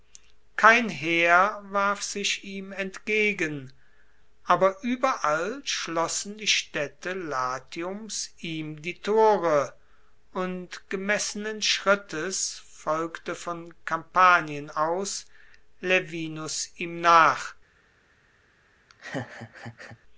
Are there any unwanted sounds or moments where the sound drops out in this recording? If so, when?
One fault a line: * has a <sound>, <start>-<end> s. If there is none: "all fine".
* has a laugh, 18.9-20.0 s